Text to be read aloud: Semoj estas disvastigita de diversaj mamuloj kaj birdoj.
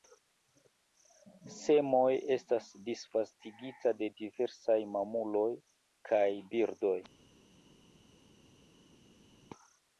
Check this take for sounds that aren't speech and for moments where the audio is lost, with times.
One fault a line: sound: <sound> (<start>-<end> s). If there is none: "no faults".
no faults